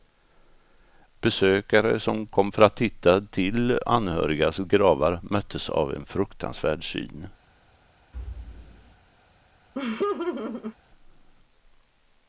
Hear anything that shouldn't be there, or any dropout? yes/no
yes